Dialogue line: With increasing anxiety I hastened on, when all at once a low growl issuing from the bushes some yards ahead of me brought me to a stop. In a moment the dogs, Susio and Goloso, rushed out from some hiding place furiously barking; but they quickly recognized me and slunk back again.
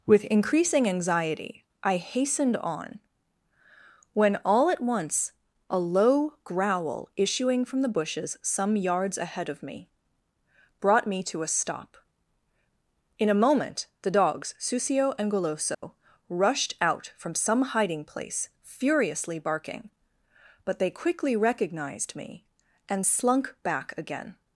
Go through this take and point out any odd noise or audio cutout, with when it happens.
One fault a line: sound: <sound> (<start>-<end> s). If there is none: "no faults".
sound: dropout (15.7-15.8 s)